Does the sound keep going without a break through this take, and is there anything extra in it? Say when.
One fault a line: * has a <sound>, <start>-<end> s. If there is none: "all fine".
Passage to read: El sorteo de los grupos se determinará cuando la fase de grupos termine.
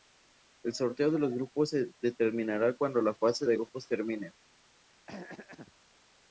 * has a throat clearing, 5.1-5.7 s